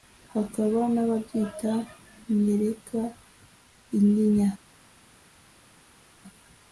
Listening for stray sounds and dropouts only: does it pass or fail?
pass